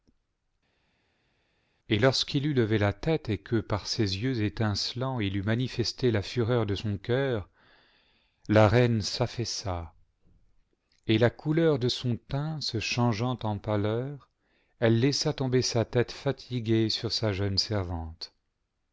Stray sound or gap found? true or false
false